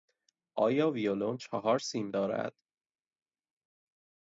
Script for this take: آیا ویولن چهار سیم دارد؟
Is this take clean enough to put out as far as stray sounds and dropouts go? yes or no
yes